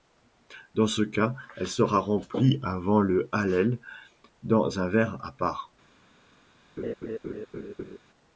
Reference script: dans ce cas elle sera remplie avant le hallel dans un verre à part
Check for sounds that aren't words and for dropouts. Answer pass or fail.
fail